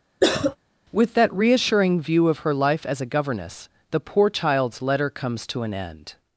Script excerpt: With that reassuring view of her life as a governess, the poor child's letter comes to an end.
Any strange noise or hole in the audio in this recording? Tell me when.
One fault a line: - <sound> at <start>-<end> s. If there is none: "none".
- cough at 0.2-0.6 s